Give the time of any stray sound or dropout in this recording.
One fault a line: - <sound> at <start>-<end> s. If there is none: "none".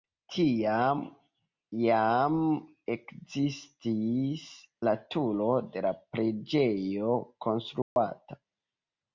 - dropout at 7.8-8.0 s